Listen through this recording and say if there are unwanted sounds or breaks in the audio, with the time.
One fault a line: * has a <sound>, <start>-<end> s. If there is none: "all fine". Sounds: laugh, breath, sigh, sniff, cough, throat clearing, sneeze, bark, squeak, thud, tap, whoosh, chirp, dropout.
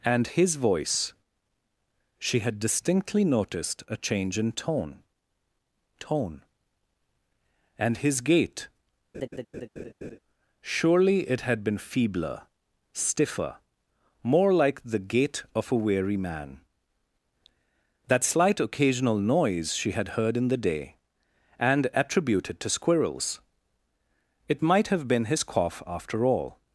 * has a laugh, 9.1-10.2 s